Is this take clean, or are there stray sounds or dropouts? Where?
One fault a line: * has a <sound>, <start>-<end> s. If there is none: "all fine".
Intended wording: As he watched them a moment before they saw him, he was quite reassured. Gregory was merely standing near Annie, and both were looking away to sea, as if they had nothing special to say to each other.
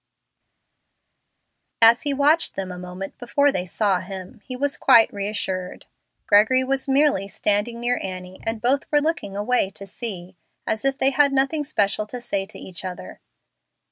all fine